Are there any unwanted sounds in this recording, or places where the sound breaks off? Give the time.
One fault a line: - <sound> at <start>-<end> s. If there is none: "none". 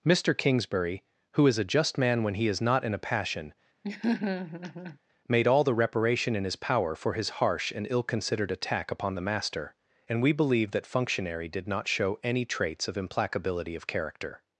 - laugh at 3.8-5.0 s